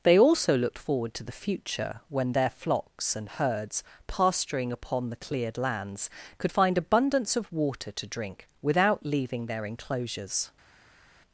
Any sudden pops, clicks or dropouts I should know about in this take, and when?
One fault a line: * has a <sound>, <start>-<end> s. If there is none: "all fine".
all fine